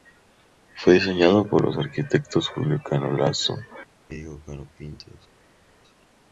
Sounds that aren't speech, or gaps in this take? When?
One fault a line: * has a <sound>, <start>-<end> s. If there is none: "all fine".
all fine